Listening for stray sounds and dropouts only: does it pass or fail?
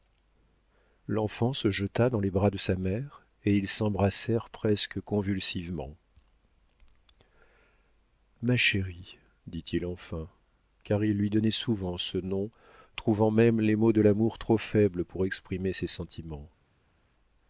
pass